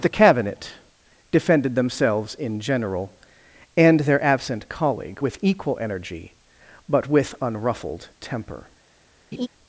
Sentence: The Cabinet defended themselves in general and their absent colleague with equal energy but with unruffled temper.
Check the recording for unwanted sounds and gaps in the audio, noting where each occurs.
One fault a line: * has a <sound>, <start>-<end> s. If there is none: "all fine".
* has a laugh, 9.3-9.5 s